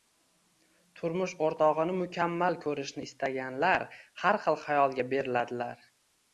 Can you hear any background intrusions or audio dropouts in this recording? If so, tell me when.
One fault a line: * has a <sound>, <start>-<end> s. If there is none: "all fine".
all fine